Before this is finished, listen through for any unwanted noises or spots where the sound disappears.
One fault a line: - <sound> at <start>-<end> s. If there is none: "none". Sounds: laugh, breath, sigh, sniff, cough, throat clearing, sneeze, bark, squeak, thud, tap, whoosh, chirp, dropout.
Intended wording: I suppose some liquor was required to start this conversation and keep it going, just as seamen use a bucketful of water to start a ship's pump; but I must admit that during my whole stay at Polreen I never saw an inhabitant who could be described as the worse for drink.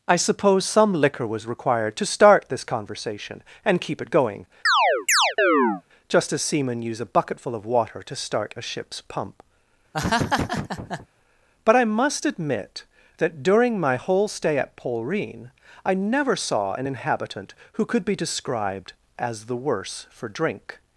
- chirp at 4.7-5.8 s
- laugh at 9.9-11.1 s